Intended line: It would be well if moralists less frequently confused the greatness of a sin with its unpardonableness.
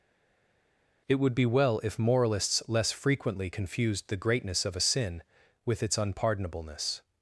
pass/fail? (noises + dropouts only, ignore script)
pass